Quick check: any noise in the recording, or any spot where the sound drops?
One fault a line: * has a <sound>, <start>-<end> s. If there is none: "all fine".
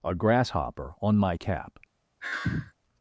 * has a sigh, 2.2-2.7 s